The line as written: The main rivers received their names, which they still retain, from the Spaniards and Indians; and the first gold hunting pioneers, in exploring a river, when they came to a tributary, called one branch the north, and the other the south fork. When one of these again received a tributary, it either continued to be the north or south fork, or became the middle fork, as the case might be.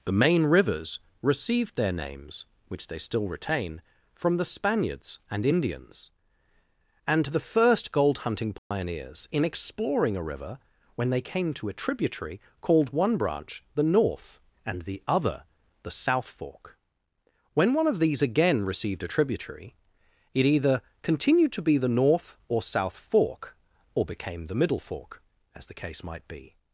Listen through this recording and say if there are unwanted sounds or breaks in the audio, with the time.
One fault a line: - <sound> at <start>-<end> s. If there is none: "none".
- dropout at 8.6-8.7 s